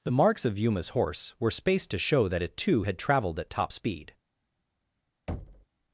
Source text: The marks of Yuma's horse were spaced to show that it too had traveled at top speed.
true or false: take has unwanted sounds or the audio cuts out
true